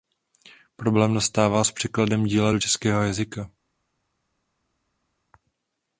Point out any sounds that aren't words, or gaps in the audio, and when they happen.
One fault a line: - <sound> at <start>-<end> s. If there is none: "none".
none